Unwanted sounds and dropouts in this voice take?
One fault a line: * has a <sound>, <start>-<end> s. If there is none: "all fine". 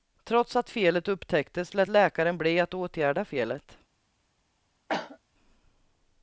* has a cough, 4.9-5.2 s